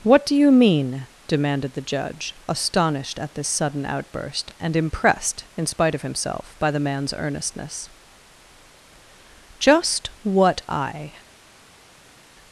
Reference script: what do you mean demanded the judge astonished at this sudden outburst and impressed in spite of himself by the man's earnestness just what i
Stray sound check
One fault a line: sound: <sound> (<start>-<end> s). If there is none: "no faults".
no faults